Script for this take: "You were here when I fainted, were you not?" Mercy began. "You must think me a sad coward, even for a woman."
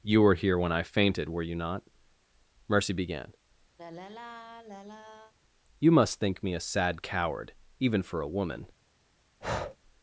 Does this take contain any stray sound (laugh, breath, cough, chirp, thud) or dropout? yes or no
yes